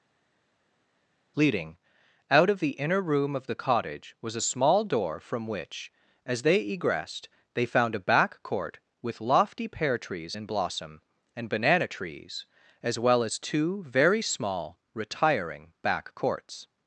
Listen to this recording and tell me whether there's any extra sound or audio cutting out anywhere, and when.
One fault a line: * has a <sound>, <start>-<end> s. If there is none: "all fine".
all fine